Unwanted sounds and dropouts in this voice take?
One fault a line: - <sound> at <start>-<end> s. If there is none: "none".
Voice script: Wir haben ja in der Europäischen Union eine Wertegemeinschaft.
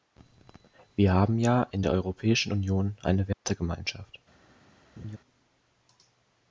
- dropout at 3.3-3.4 s
- laugh at 5.0-5.2 s